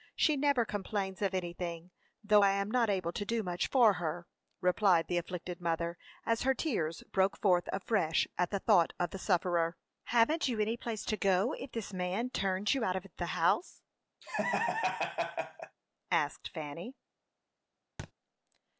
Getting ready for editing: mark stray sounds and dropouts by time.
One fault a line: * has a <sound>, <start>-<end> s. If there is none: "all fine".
* has a laugh, 14.2-15.8 s
* has a thud, 18.0-18.1 s